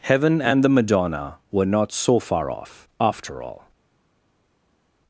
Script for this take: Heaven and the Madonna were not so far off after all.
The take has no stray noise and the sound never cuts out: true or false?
true